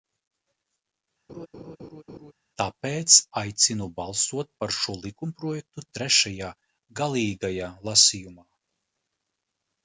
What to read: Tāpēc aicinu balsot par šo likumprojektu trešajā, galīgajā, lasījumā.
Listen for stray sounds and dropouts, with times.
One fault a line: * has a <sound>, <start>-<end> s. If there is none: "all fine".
* has a laugh, 1.3-2.3 s